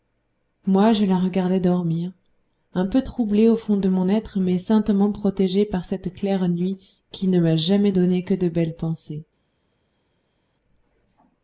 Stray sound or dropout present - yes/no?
no